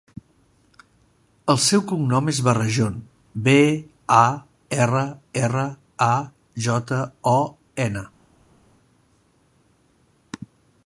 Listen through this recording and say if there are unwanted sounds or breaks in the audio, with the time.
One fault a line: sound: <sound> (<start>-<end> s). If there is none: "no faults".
no faults